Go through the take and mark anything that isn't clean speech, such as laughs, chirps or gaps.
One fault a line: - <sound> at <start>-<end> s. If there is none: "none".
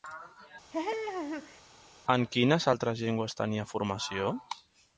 - laugh at 0.7-1.6 s